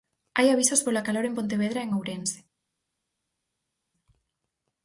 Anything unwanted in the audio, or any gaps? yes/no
no